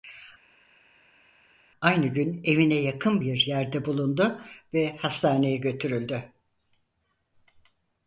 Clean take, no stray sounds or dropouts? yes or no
yes